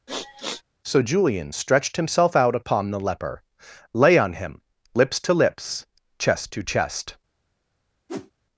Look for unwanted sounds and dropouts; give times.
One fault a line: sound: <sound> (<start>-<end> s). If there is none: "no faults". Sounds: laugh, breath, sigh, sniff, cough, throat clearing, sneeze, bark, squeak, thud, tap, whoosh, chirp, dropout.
sound: sniff (0.1-0.6 s)
sound: whoosh (8.1-8.3 s)